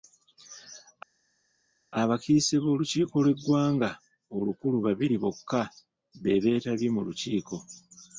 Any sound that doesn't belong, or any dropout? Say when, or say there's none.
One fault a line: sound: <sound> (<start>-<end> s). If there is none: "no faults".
no faults